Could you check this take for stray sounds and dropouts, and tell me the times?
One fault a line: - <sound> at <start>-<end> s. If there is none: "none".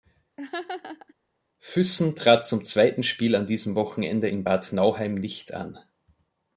- laugh at 0.4-1.1 s